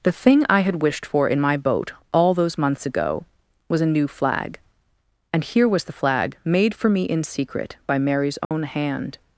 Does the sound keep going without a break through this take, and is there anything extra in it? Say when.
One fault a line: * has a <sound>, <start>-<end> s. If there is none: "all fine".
* has a dropout, 8.4-8.5 s